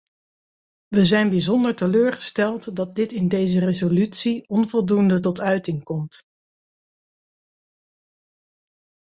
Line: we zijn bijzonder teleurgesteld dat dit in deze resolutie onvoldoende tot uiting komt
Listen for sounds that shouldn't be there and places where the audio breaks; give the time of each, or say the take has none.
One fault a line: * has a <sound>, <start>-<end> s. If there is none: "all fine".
all fine